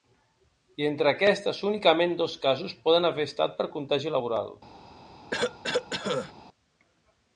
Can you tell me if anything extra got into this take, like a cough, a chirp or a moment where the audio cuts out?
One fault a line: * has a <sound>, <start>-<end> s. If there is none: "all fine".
* has a cough, 5.3-6.3 s